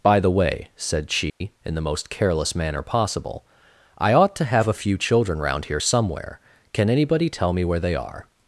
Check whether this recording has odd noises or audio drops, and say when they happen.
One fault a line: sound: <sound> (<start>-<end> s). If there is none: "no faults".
sound: dropout (1.3-1.4 s)